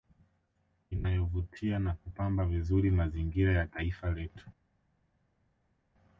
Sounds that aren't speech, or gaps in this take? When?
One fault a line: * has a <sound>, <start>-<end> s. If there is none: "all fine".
all fine